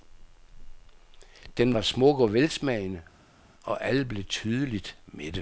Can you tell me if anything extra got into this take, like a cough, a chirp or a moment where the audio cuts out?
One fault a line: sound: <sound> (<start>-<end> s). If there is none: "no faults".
no faults